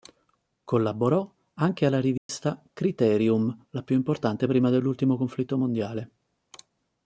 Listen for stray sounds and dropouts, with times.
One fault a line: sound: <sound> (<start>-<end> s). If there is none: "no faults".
sound: dropout (2.2-2.3 s)